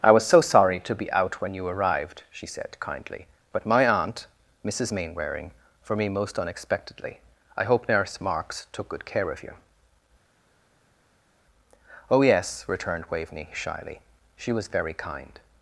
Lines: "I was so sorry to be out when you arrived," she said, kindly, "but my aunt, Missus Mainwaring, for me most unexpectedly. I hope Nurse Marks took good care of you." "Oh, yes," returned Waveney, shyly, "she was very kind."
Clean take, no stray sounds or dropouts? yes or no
yes